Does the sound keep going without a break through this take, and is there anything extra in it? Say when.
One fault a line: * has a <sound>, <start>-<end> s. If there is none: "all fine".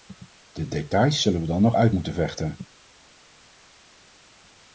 all fine